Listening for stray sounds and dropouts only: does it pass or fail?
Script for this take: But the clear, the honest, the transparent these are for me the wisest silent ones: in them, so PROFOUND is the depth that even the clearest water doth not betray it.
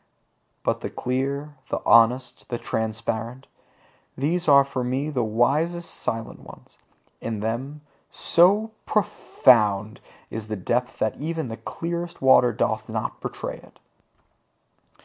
pass